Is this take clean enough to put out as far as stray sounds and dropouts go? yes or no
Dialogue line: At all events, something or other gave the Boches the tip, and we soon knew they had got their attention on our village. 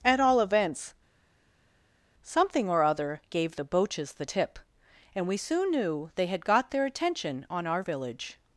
yes